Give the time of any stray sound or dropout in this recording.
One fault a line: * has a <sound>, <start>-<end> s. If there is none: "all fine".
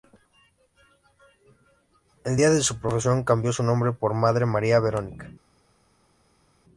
all fine